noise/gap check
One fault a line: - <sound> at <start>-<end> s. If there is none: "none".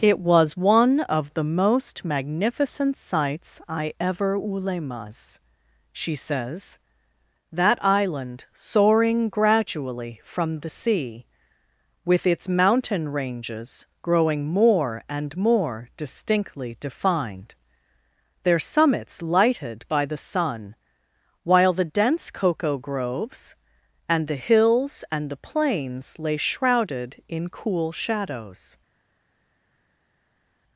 none